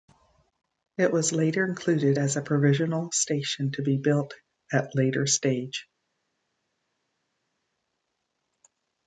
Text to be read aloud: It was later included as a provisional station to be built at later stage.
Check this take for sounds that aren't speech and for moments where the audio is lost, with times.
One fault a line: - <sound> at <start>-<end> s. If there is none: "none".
none